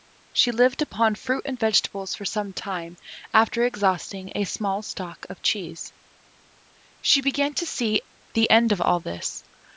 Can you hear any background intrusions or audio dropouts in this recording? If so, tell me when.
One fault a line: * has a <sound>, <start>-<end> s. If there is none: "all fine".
all fine